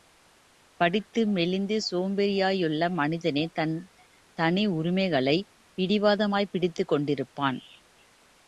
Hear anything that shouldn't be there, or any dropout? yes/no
no